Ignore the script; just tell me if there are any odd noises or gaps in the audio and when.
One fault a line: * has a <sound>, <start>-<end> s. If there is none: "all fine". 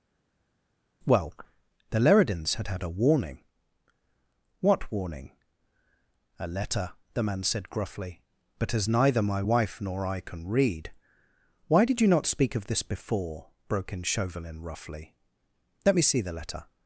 all fine